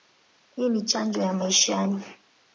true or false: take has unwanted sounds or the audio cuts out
false